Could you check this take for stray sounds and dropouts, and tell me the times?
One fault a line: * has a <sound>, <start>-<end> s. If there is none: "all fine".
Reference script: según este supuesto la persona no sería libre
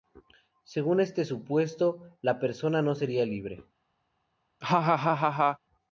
* has a laugh, 4.6-5.6 s